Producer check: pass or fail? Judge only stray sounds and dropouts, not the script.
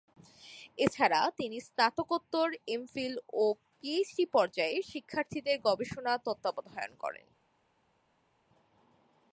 pass